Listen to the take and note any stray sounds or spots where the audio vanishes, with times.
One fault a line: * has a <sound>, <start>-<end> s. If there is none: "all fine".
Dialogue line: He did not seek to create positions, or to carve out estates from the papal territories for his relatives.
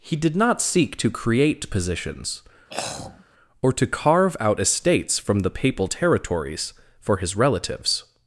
* has a throat clearing, 2.7-3.2 s